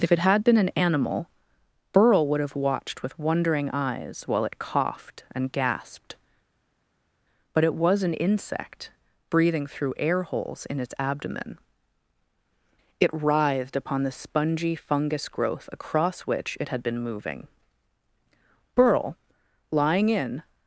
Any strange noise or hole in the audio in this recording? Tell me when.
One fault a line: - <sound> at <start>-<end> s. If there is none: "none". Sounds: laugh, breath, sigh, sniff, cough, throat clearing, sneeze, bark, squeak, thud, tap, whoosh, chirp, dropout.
none